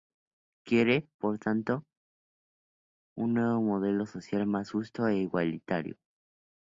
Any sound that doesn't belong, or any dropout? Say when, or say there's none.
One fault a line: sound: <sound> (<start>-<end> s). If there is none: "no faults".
no faults